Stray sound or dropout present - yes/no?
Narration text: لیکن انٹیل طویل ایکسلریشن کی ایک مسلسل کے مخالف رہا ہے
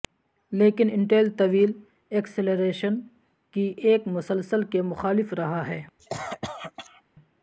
yes